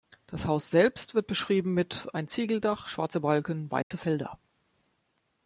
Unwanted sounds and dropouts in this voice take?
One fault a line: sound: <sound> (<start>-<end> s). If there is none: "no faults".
sound: dropout (3.8-3.9 s)